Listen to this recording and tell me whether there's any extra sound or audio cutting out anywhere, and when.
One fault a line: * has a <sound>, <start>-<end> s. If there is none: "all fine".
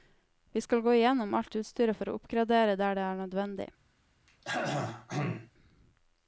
* has a throat clearing, 4.3-5.5 s